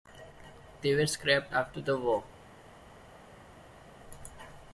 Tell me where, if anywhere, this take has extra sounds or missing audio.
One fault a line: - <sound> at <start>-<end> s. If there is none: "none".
none